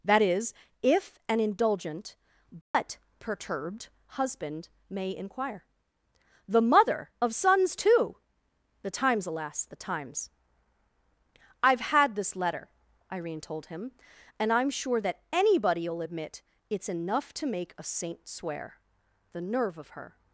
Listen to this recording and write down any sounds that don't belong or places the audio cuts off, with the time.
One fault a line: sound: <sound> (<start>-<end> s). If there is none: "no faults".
sound: dropout (2.6-2.7 s)